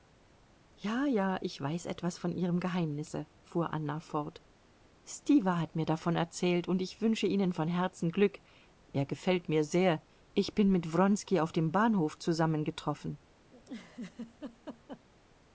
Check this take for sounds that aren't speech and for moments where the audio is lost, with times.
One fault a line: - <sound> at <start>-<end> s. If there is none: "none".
- laugh at 13.5-15.1 s